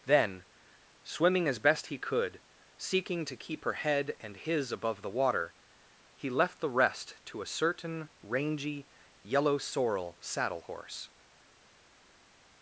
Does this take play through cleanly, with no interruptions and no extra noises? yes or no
yes